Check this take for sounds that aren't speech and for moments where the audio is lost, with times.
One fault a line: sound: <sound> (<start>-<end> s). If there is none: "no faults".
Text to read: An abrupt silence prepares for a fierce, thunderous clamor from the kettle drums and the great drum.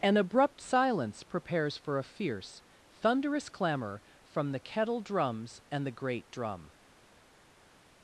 no faults